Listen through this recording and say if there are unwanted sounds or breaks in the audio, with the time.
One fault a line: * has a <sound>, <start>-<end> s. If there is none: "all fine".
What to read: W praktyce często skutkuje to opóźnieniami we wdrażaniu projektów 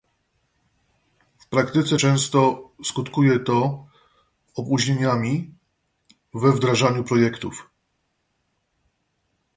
all fine